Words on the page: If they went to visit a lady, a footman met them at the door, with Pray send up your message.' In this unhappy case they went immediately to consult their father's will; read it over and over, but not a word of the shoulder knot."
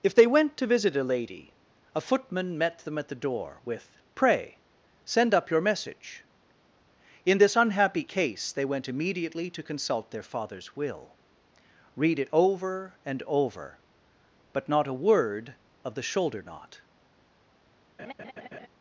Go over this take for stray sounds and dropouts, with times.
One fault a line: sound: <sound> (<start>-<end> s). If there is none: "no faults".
sound: laugh (18.0-18.7 s)